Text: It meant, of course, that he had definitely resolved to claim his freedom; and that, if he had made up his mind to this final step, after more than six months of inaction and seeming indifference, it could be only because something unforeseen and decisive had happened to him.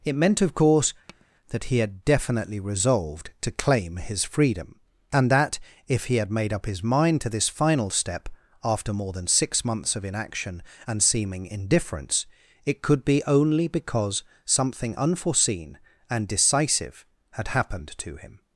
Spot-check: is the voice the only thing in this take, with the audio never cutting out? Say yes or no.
no